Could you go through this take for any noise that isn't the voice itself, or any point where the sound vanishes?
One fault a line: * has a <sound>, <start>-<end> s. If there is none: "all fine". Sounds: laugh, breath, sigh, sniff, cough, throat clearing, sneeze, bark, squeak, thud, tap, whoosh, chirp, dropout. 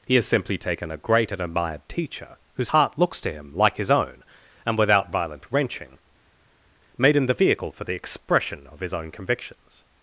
all fine